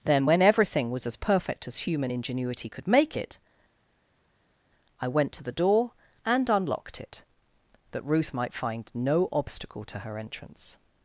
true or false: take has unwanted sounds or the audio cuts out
false